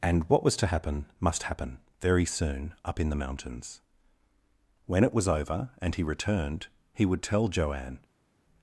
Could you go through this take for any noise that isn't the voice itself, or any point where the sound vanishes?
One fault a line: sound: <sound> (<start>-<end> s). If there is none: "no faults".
no faults